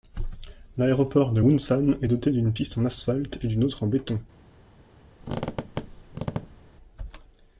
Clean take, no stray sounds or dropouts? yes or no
no